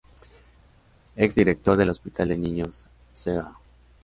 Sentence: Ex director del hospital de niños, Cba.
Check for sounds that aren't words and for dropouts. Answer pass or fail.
pass